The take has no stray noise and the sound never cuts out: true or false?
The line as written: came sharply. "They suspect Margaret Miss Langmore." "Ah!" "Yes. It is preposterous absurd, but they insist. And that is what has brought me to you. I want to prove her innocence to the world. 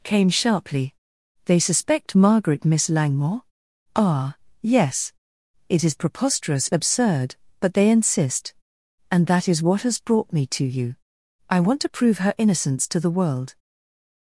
true